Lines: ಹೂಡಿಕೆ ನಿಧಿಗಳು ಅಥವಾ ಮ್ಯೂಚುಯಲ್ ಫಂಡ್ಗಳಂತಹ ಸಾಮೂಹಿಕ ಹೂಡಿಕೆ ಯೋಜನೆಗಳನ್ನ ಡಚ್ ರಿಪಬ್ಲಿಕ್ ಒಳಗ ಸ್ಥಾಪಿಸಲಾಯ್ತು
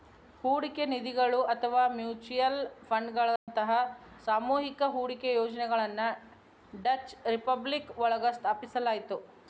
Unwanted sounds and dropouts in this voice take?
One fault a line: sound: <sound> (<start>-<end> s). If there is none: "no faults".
sound: dropout (3.4-3.5 s)